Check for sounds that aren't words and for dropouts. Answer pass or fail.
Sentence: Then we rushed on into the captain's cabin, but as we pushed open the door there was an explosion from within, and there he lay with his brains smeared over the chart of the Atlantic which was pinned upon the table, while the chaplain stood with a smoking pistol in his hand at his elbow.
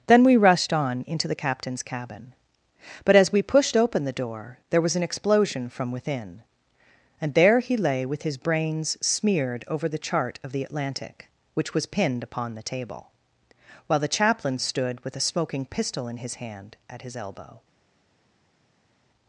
pass